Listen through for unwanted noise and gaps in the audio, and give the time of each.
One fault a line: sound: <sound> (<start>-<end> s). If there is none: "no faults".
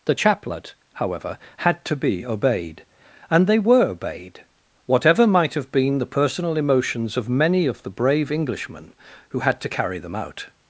no faults